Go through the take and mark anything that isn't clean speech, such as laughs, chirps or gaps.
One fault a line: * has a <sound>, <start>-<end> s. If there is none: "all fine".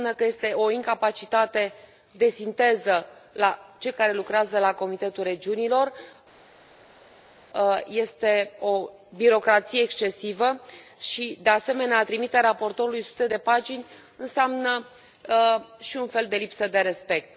all fine